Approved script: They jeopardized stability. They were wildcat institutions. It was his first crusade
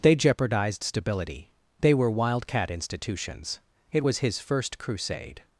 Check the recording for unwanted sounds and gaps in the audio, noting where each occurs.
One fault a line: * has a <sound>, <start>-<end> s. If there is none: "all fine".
all fine